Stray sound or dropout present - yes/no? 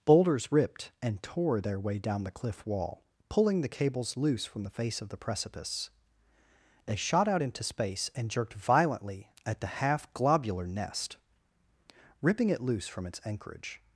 no